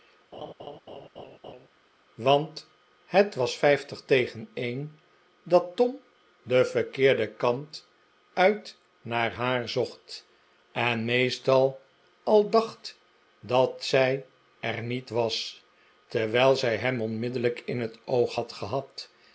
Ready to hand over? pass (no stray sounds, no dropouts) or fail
fail